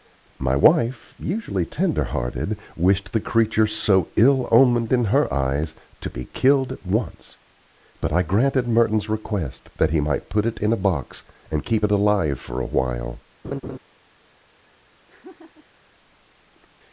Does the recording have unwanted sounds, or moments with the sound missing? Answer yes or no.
yes